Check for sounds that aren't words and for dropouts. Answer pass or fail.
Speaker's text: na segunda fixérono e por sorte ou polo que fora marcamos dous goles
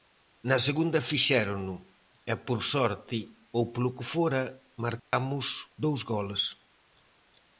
fail